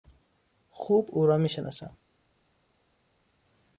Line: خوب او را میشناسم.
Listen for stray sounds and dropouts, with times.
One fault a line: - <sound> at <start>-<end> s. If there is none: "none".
none